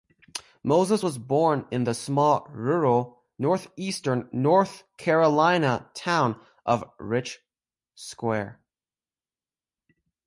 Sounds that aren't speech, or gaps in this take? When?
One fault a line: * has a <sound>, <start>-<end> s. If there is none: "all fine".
all fine